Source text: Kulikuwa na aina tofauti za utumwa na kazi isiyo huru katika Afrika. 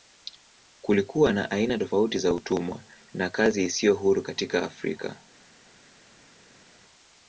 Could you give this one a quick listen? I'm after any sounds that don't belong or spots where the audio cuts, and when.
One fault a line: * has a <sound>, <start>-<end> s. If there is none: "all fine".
all fine